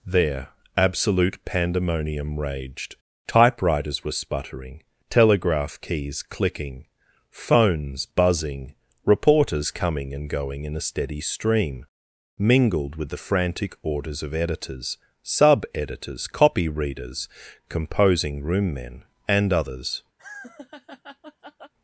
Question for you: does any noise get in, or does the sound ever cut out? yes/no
yes